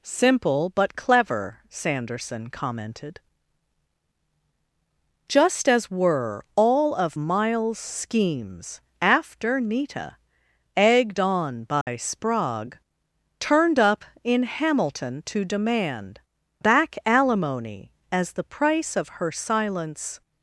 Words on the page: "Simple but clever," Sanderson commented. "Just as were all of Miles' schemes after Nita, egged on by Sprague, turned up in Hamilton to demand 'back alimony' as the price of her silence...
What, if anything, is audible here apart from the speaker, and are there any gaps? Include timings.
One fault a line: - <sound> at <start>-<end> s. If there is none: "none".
- dropout at 11.8-11.9 s